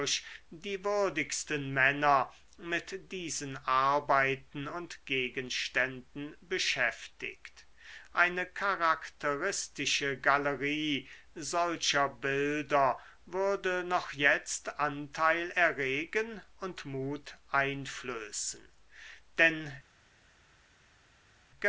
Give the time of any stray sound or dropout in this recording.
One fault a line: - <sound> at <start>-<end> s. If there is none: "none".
none